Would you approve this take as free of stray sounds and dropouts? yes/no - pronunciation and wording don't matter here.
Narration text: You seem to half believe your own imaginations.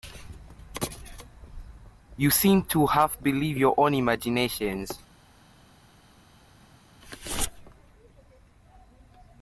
yes